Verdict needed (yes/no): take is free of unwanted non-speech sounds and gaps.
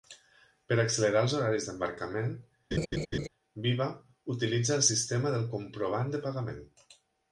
no